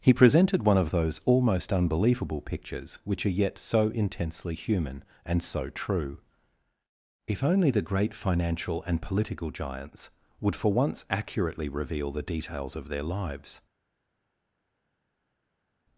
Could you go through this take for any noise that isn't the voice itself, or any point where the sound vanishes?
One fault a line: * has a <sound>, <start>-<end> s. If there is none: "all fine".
all fine